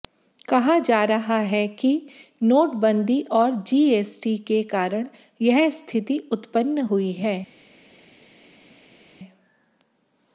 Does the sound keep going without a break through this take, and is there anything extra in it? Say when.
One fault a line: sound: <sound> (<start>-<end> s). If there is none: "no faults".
no faults